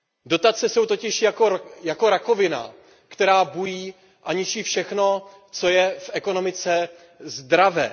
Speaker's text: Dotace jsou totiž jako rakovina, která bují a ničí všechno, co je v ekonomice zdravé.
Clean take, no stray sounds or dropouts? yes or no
yes